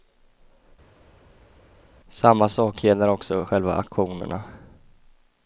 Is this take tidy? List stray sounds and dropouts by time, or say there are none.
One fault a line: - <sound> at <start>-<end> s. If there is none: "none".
none